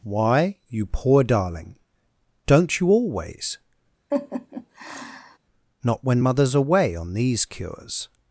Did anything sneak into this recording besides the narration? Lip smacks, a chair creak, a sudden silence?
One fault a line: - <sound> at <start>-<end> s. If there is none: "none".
- laugh at 4.1-5.4 s